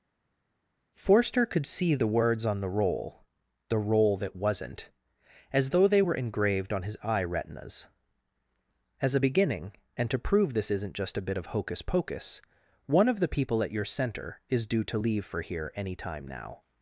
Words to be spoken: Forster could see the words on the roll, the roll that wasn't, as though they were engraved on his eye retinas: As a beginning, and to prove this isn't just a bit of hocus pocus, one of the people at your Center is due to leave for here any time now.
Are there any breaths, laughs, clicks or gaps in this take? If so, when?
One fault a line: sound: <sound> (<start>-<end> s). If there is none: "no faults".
no faults